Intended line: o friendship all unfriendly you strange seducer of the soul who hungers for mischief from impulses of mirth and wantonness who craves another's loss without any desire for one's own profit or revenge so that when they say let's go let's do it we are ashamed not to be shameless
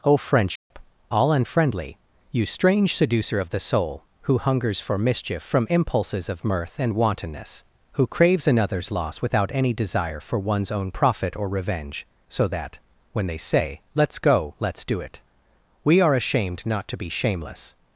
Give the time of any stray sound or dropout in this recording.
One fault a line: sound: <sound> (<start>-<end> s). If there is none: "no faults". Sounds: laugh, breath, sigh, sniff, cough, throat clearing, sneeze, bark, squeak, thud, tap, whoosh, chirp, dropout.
sound: dropout (0.6-0.7 s)